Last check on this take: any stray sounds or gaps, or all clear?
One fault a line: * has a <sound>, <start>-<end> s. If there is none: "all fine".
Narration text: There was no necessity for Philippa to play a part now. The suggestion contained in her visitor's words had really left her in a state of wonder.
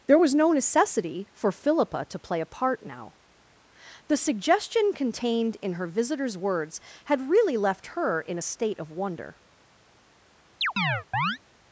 * has a chirp, 10.6-11.4 s